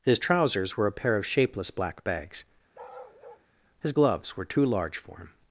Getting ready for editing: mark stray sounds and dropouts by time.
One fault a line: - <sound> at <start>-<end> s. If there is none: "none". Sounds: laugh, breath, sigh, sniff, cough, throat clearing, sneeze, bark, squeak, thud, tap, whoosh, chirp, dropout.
- bark at 2.7-3.5 s